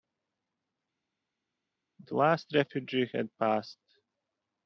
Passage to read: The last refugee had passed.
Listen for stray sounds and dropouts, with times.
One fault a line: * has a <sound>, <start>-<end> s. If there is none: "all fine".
all fine